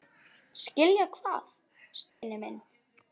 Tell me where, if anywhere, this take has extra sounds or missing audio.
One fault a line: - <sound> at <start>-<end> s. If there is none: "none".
- dropout at 2.1-2.2 s